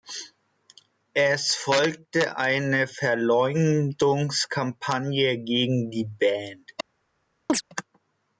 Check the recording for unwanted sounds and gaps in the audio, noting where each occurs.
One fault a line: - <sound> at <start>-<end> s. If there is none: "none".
- chirp at 7.5-7.6 s